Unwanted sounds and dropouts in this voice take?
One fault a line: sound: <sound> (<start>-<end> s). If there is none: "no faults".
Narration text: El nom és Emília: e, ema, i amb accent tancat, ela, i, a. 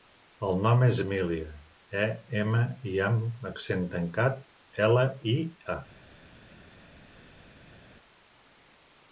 no faults